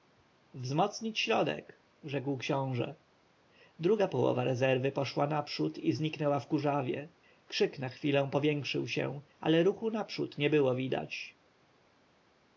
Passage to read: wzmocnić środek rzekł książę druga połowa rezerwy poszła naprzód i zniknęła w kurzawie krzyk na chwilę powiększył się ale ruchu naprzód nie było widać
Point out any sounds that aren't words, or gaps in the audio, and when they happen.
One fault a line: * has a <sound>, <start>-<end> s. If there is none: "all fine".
all fine